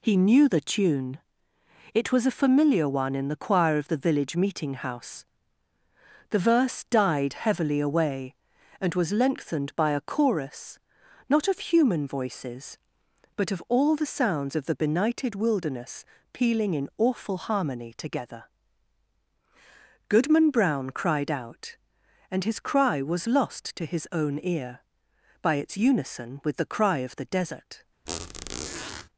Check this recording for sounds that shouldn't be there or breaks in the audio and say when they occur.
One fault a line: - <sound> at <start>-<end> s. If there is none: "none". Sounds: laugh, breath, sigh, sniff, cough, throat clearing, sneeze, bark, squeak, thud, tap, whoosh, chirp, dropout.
- squeak at 28.1-29.1 s